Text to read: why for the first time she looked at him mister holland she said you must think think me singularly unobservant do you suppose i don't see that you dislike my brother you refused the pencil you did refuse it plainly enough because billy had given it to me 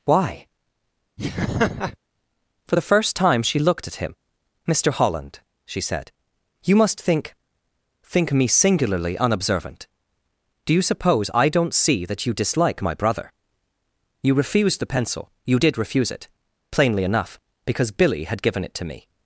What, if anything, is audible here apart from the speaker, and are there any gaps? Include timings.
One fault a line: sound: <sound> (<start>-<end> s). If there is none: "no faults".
sound: laugh (1.2-2.0 s)